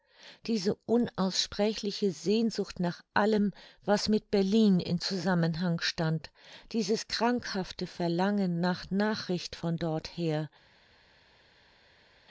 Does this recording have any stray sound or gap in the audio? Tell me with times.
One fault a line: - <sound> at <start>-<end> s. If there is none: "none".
none